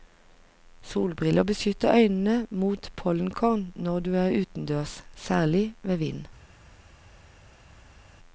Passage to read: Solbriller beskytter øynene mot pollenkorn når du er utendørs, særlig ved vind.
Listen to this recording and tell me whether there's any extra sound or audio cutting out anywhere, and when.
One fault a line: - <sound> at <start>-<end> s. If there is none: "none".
none